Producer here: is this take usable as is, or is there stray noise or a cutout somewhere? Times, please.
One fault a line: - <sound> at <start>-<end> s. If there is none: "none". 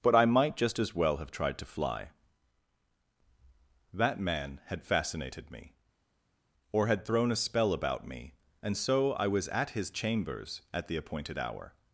none